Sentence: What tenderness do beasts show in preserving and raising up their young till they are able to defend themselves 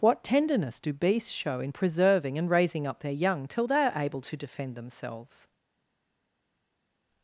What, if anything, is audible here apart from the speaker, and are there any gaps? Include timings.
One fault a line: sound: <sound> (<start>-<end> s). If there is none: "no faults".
no faults